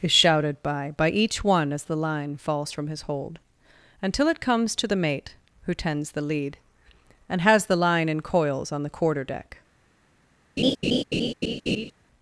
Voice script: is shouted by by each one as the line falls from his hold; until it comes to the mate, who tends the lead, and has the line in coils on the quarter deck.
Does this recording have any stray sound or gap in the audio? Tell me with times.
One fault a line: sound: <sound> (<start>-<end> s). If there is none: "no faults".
sound: laugh (10.6-11.9 s)